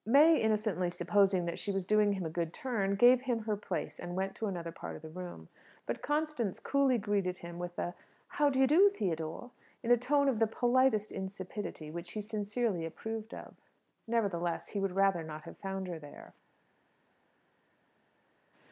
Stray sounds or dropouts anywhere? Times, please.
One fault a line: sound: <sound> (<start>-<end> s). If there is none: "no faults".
no faults